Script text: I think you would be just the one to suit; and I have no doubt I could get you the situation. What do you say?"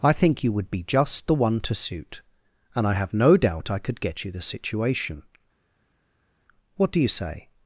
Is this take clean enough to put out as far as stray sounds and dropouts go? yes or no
yes